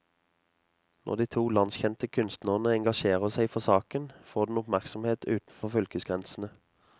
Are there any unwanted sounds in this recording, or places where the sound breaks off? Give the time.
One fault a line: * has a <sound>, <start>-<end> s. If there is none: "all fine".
* has a dropout, 5.5-5.6 s